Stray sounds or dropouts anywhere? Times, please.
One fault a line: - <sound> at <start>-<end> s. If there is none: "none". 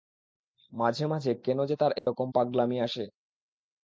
- dropout at 2.0-2.1 s